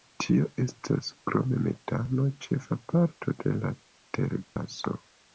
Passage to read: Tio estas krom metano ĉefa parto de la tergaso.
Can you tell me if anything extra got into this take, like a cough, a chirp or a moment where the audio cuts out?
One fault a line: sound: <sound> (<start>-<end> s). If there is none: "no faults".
sound: dropout (4.4-4.6 s)